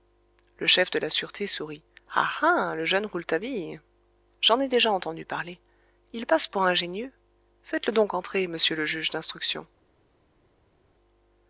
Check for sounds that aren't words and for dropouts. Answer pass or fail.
pass